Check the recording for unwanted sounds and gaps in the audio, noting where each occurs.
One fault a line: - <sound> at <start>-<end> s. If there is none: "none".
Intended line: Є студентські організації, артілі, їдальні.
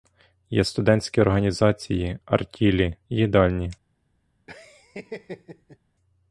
- laugh at 4.5-5.8 s